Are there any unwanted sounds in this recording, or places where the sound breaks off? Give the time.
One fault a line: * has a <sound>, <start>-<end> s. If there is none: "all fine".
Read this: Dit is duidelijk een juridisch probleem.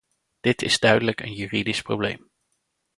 all fine